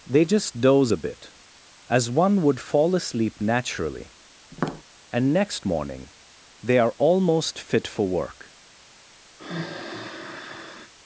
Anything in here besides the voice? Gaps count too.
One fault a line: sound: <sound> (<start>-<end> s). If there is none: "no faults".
sound: tap (4.5-4.8 s)
sound: sigh (9.4-10.9 s)